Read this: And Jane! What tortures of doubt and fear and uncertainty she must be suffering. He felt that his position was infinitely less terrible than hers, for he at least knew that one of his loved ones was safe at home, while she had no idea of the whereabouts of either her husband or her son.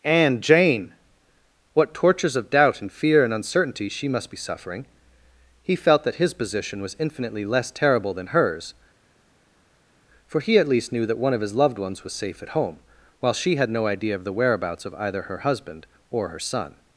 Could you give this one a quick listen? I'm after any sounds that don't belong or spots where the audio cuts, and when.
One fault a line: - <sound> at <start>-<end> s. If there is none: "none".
none